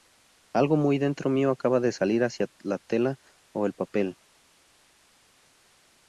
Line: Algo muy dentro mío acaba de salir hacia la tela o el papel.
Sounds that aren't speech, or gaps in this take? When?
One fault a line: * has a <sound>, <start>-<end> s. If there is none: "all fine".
all fine